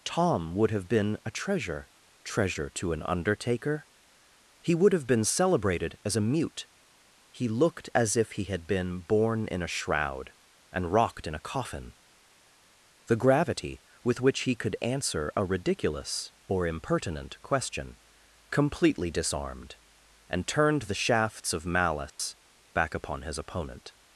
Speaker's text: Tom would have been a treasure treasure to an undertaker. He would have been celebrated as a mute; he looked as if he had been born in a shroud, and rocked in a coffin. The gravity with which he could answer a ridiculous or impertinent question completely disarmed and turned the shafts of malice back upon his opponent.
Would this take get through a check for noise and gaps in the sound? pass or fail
fail